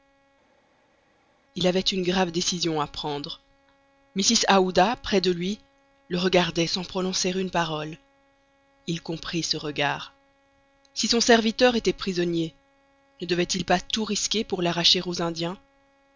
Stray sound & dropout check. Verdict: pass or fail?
pass